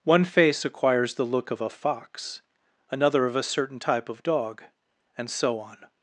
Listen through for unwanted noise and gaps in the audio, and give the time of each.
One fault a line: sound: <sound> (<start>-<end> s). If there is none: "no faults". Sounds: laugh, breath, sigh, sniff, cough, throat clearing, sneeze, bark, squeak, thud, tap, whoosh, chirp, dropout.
no faults